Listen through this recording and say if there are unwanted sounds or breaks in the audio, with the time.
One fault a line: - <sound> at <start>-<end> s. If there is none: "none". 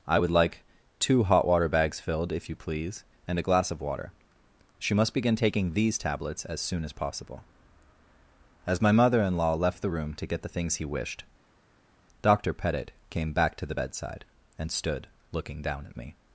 none